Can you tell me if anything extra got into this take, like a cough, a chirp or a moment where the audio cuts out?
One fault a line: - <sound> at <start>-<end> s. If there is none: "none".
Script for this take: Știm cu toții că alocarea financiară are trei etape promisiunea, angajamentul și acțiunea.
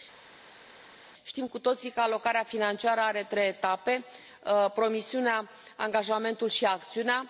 none